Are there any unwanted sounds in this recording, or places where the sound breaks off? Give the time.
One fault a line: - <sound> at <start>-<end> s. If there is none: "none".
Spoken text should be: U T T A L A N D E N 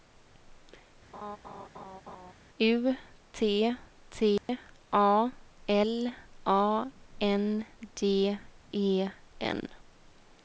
- laugh at 1.1-2.3 s
- dropout at 4.4-4.5 s